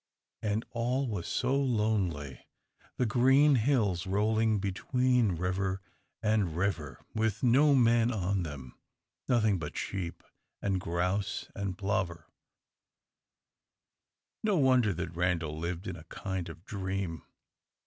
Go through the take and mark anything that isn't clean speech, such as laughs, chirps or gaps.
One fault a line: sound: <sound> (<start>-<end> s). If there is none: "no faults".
no faults